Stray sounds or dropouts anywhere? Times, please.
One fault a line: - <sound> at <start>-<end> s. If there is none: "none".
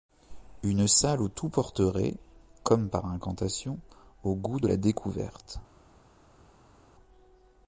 none